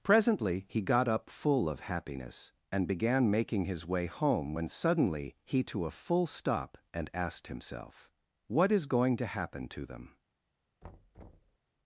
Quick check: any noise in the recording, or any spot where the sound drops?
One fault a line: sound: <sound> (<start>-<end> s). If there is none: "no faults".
sound: thud (10.8-11.6 s)